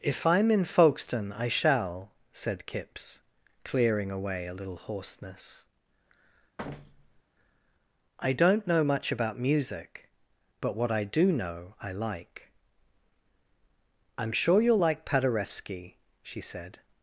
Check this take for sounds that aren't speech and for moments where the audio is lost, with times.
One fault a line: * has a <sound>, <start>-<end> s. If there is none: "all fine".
* has a thud, 6.6-7.2 s